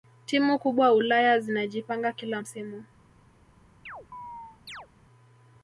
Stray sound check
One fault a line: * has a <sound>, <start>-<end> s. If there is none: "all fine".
* has a chirp, 3.9-4.9 s